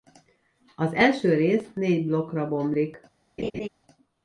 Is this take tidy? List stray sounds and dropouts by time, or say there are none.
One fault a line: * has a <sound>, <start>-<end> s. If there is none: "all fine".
* has a laugh, 3.4-3.7 s